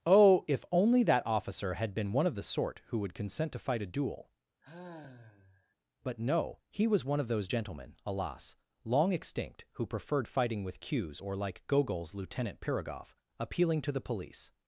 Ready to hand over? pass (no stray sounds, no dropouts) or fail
fail